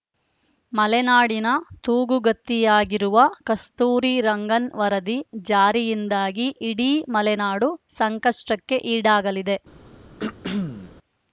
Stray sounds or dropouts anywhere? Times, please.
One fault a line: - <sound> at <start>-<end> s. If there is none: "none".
- throat clearing at 10.2-10.9 s